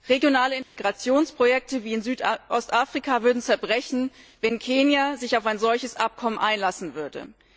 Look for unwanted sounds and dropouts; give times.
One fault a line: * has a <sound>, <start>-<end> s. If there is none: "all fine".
* has a dropout, 0.6-0.8 s